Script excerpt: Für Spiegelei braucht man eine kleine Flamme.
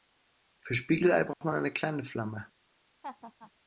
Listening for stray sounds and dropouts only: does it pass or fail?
fail